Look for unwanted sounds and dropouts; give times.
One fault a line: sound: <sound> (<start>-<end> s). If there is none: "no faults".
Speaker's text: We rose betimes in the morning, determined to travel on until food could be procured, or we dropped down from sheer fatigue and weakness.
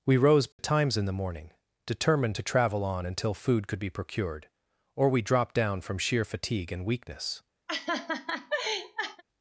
sound: dropout (0.5-0.6 s)
sound: laugh (7.7-9.2 s)